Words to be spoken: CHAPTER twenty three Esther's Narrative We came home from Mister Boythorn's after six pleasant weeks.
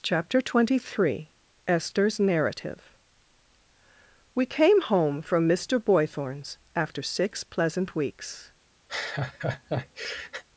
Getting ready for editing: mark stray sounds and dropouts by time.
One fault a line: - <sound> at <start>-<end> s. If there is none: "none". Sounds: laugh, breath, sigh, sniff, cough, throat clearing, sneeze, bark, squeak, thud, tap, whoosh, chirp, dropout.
- laugh at 8.9-10.4 s